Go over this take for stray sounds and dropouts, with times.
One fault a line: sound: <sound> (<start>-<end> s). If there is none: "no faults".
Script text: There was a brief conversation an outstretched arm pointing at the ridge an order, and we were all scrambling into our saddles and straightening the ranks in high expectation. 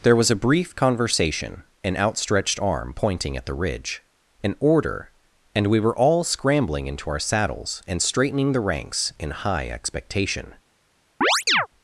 sound: chirp (11.2-11.7 s)